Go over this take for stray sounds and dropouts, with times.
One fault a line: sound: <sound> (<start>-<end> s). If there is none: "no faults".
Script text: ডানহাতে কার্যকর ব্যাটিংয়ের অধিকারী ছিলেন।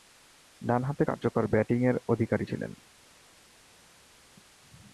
no faults